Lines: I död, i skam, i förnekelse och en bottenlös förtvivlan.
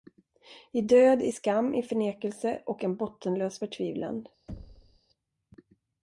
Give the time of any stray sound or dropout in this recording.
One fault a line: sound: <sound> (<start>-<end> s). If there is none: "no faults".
sound: thud (4.5-5.0 s)